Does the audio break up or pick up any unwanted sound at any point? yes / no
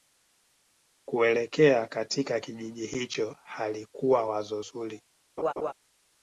yes